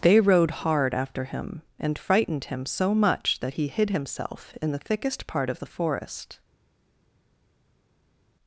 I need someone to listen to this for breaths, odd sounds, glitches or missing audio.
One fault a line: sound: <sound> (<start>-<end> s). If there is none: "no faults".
no faults